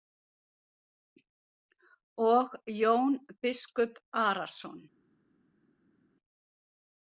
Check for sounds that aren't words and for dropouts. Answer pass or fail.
pass